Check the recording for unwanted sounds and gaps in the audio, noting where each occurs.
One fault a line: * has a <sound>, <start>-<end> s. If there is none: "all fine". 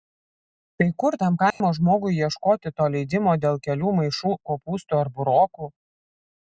* has a dropout, 1.5-1.6 s